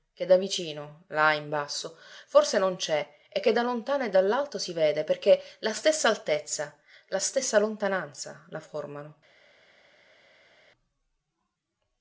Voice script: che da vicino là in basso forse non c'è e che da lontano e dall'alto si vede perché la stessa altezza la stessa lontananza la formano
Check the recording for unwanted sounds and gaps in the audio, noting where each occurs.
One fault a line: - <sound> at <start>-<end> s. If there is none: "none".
none